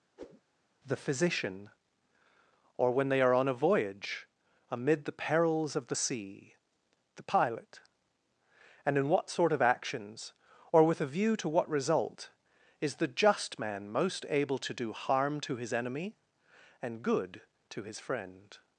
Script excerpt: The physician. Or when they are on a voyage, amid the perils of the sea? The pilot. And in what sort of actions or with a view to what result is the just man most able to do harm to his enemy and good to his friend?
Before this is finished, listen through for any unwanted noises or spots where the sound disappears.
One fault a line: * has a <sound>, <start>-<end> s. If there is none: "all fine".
* has a whoosh, 0.2-0.4 s